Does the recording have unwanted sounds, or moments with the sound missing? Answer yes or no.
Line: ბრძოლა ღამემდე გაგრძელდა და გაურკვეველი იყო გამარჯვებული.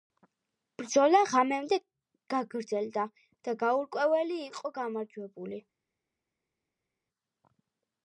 no